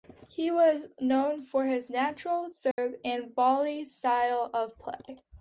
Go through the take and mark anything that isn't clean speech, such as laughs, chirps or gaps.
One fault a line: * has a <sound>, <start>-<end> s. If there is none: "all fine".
* has a dropout, 2.7-2.8 s